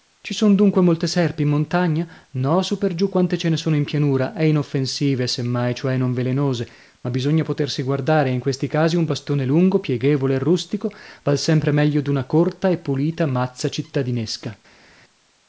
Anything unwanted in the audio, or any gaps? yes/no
no